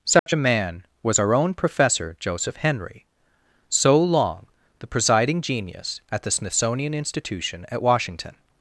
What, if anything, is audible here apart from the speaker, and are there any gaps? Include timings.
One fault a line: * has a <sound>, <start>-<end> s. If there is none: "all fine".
* has a dropout, 0.2-0.3 s